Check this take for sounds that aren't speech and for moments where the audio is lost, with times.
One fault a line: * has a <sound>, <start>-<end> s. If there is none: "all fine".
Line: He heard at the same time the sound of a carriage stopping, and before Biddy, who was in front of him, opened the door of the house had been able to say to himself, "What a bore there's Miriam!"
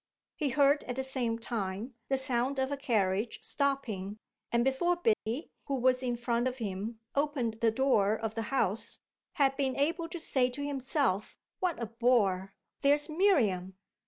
* has a dropout, 5.1-5.3 s